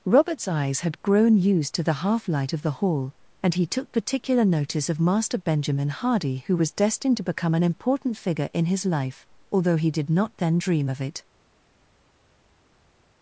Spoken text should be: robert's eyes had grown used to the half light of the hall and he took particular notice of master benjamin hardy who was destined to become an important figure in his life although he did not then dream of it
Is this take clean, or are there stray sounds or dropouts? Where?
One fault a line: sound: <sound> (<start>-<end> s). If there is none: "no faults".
no faults